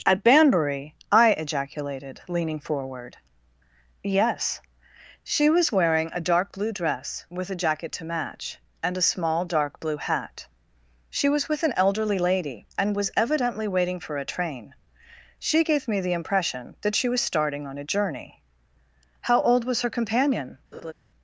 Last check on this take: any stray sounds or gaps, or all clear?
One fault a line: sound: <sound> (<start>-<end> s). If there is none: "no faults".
sound: laugh (20.7-20.9 s)